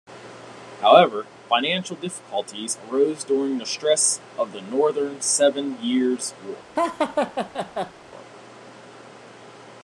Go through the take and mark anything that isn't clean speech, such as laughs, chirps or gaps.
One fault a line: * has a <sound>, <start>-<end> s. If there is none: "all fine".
* has a laugh, 6.8-7.9 s